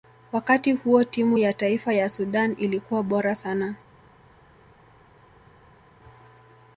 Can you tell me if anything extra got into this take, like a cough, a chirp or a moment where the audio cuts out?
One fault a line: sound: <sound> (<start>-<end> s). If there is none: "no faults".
no faults